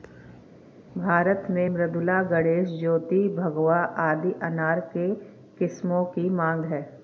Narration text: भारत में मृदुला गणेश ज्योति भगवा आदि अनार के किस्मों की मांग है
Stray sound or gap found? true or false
false